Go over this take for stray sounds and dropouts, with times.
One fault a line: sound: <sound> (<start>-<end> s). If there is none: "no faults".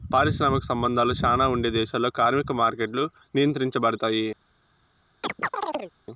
sound: chirp (5.2-5.9 s)